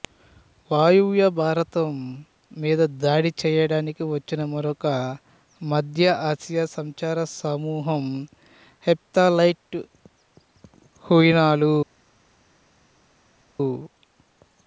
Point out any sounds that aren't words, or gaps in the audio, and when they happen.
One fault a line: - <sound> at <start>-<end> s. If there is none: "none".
none